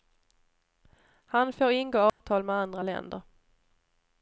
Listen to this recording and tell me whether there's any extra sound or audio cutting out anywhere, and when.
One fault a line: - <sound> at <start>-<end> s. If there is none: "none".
- dropout at 2.1-2.2 s